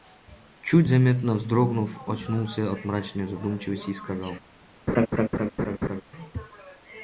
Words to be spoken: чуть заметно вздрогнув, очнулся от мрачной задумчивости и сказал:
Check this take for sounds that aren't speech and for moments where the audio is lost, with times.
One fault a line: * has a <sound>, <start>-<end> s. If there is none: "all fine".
* has a laugh, 4.9-6.0 s